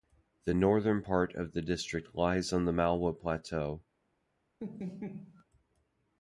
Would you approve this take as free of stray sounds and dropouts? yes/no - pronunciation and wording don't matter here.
no